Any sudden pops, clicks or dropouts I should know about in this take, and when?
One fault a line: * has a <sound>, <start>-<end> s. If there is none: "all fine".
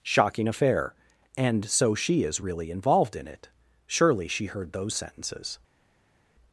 all fine